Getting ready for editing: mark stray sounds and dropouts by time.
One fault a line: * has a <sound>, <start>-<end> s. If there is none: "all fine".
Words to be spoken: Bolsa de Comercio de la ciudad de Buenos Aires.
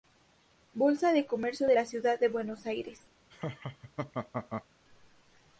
* has a laugh, 3.3-4.7 s